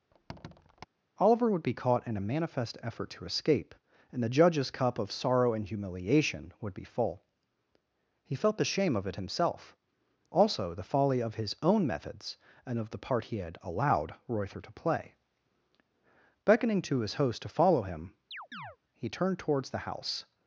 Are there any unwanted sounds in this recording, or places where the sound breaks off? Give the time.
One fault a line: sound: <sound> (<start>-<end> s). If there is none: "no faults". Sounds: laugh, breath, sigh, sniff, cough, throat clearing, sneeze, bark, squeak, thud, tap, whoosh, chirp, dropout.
sound: squeak (0.1-0.9 s)
sound: chirp (18.3-18.8 s)